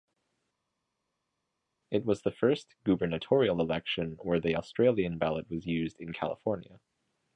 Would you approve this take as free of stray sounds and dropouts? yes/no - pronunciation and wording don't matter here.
yes